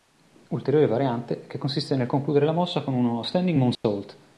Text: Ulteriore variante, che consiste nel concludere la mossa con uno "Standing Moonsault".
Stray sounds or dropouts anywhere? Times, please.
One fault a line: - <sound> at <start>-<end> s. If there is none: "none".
- dropout at 3.7-3.8 s